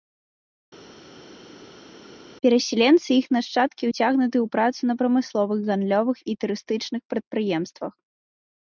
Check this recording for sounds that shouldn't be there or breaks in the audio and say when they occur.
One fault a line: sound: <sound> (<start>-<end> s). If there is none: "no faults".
no faults